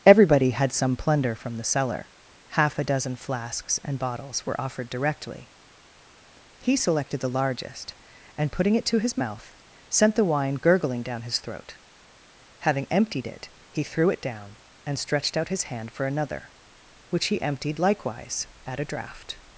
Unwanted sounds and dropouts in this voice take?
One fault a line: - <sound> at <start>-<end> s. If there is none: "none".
none